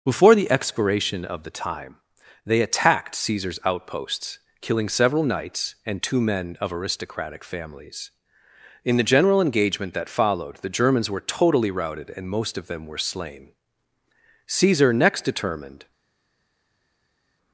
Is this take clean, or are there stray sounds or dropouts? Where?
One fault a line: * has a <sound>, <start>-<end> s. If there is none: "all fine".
all fine